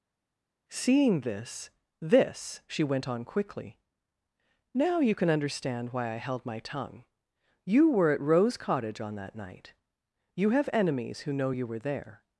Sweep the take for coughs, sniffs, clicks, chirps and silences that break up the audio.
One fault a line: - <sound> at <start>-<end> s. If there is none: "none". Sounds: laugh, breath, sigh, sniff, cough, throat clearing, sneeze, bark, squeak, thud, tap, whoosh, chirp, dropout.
none